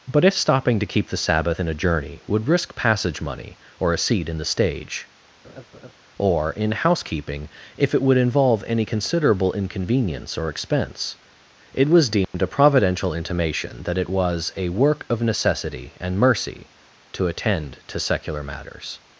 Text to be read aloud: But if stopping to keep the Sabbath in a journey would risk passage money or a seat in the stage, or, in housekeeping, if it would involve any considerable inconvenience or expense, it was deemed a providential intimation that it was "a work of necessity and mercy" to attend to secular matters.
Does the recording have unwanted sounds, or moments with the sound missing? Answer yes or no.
yes